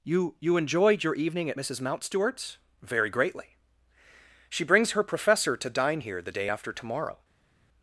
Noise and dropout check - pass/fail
pass